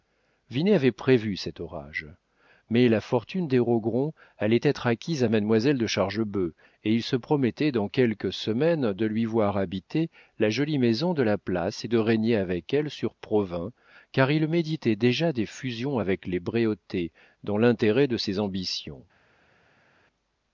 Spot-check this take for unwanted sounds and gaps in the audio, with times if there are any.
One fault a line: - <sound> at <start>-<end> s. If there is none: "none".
none